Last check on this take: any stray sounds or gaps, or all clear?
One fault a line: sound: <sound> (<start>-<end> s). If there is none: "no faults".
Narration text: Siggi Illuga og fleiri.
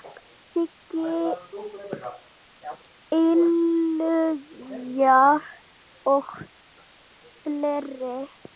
no faults